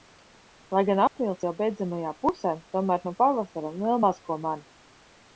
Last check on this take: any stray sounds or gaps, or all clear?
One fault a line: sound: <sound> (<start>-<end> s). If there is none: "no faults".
sound: dropout (1.1-1.2 s)